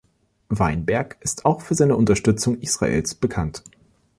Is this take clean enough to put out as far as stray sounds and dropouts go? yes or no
yes